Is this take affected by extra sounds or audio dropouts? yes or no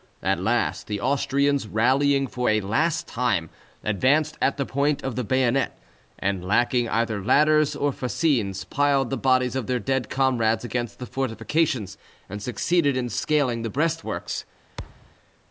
yes